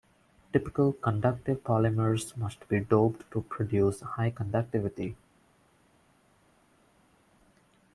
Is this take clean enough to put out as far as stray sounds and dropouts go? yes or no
yes